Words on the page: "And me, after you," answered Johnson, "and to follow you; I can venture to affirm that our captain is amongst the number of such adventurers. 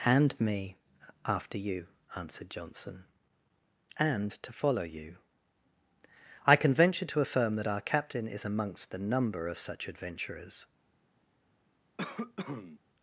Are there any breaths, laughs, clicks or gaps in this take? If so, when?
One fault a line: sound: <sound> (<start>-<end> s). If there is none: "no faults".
sound: cough (12.0-12.8 s)